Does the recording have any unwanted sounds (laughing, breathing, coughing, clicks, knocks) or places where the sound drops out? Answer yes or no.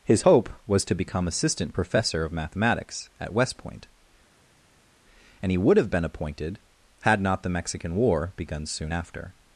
no